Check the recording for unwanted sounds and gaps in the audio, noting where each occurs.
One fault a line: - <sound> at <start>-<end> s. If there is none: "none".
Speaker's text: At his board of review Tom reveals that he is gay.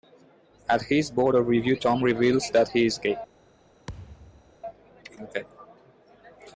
- thud at 3.9-4.6 s